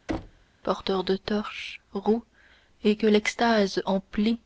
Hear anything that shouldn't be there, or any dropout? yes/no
yes